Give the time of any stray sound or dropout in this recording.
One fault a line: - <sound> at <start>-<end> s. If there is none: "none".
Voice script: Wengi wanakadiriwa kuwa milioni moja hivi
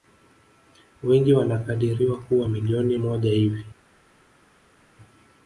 none